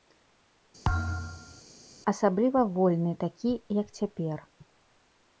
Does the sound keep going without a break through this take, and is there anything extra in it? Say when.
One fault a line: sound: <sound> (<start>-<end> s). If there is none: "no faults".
sound: thud (0.8-1.6 s)